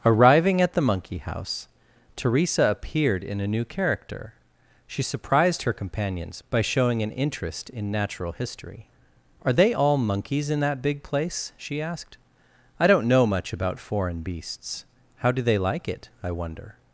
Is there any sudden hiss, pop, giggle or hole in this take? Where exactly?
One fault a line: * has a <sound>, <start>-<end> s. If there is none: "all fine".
all fine